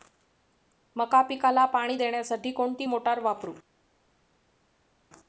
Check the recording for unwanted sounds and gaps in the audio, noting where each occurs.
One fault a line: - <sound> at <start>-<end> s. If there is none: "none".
none